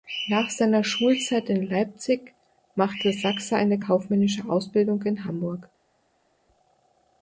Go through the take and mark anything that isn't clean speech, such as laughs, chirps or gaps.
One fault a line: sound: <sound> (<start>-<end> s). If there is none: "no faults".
no faults